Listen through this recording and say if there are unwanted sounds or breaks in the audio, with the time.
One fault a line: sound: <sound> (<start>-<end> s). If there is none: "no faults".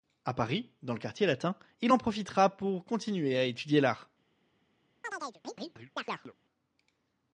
sound: chirp (5.0-6.3 s)